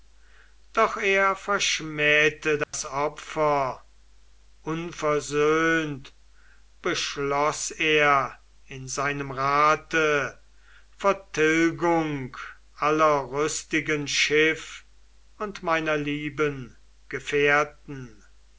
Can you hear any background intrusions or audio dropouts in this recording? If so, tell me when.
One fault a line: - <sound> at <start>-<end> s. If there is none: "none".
- dropout at 2.6-2.7 s